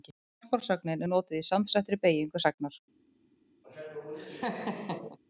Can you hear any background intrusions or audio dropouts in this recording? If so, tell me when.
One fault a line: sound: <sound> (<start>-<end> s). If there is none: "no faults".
sound: laugh (3.6-5.2 s)